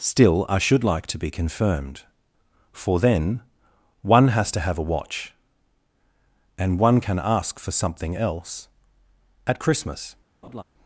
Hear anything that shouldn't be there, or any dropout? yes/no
yes